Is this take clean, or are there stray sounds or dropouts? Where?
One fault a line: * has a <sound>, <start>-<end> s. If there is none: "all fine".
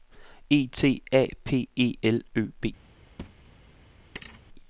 * has a thud, 3.2-3.5 s
* has a thud, 4.2-4.4 s